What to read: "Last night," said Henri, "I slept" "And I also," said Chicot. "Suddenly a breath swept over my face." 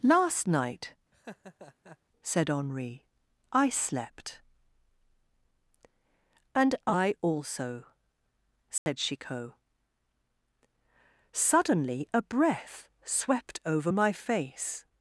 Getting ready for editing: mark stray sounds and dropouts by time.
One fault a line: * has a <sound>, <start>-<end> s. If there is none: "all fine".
* has a laugh, 1.1-2.0 s
* has a dropout, 8.8-8.9 s